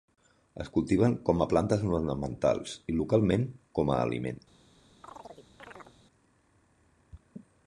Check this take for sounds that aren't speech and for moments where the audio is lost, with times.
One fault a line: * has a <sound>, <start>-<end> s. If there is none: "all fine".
* has a chirp, 5.0-6.0 s